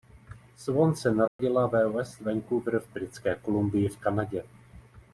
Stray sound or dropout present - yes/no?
yes